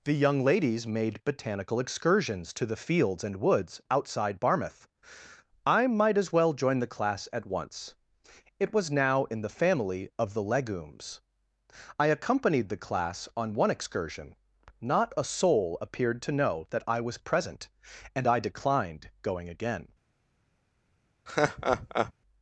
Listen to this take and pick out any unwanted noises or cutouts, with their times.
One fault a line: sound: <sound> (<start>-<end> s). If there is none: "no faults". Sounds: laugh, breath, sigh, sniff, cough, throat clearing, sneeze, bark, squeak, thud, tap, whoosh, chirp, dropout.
sound: laugh (21.3-22.1 s)